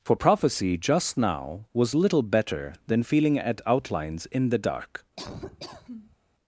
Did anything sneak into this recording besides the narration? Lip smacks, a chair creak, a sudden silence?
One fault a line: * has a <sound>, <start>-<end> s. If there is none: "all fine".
* has a laugh, 5.2-6.2 s